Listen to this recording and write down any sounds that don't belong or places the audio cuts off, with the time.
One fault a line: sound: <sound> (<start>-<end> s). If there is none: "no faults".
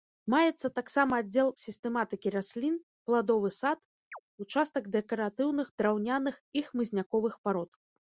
sound: chirp (4.1-4.2 s)